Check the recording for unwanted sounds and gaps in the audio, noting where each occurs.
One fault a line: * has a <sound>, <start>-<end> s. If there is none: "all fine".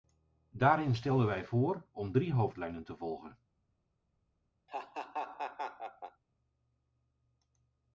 * has a laugh, 4.7-6.2 s